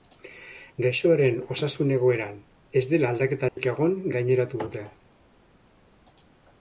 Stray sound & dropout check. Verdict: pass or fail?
fail